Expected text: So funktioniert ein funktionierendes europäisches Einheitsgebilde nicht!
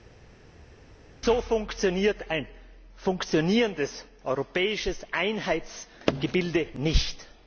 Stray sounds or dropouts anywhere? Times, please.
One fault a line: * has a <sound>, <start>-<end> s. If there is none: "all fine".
all fine